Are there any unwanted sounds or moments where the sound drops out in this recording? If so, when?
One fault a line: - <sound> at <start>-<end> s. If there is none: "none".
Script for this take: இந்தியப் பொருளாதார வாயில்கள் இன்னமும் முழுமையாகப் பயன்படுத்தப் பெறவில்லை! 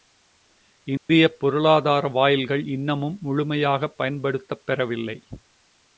- dropout at 1.0-1.1 s